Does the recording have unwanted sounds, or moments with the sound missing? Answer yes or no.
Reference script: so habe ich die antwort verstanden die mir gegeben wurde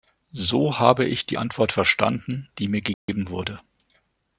yes